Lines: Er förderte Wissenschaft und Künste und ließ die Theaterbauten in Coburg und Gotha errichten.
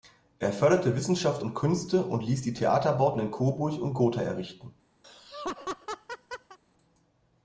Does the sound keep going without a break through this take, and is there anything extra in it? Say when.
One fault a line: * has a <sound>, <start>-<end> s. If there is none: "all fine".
* has a laugh, 5.0-6.6 s